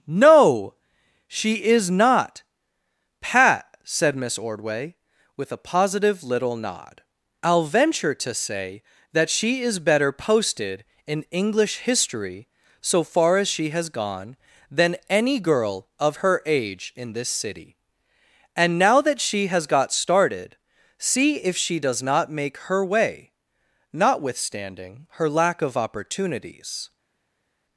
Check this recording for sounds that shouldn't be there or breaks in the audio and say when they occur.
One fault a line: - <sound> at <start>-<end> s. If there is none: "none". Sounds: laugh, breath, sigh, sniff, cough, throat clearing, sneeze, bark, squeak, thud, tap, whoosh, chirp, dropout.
none